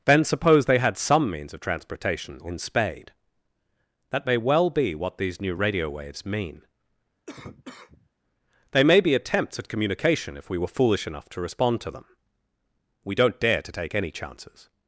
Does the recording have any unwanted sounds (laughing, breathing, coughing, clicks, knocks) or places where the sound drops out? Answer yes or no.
yes